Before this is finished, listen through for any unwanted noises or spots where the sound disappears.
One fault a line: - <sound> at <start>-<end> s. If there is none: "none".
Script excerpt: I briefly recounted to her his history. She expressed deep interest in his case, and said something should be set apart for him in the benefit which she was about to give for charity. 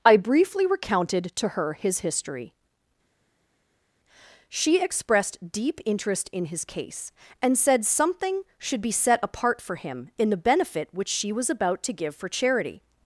none